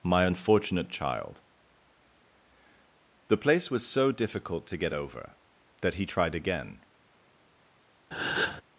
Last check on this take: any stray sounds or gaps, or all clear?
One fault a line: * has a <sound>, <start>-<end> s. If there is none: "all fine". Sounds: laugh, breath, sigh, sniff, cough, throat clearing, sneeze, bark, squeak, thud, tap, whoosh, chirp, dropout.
* has a breath, 8.1-8.6 s